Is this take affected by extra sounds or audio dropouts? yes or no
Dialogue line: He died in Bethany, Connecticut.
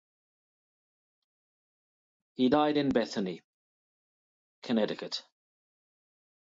no